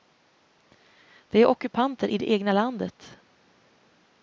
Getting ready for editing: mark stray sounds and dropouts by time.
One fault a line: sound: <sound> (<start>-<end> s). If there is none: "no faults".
no faults